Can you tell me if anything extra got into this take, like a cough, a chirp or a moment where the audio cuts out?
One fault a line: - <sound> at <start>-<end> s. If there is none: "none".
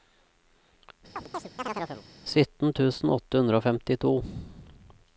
- chirp at 1.2-2.0 s